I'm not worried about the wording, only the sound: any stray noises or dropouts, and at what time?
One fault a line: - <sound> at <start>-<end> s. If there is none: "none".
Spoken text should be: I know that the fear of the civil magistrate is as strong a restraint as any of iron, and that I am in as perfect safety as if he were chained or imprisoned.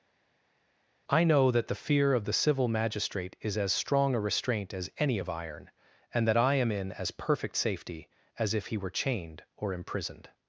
none